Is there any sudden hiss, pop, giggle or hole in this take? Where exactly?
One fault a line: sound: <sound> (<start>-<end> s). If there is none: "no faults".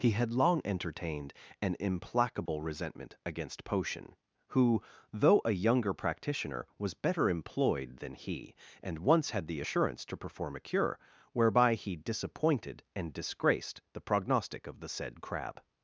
sound: dropout (2.5-2.5 s)